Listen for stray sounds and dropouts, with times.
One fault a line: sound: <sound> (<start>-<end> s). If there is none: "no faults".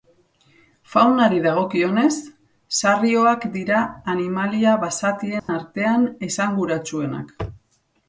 sound: dropout (5.4-5.5 s)